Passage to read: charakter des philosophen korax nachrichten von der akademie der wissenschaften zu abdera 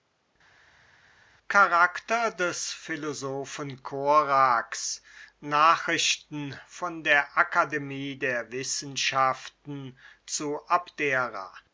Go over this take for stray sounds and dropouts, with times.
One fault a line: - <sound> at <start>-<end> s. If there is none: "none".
none